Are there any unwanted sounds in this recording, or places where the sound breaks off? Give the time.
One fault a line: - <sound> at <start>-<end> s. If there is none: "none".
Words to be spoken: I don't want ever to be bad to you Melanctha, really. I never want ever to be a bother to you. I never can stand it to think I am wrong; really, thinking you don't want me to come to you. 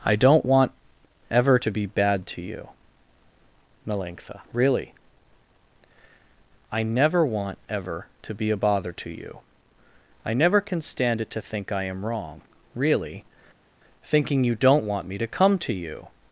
none